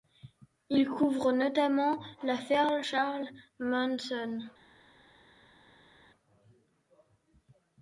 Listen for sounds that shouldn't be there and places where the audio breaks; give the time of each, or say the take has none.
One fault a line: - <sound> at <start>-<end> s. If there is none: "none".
none